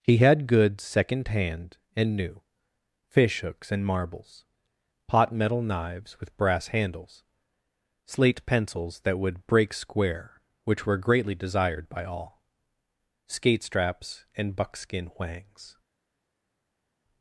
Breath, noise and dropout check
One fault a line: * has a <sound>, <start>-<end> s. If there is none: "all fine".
all fine